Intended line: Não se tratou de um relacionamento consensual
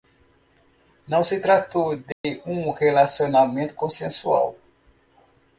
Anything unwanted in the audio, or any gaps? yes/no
yes